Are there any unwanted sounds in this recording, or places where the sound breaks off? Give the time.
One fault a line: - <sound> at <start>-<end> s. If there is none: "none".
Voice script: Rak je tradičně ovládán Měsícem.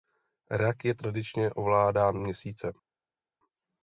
none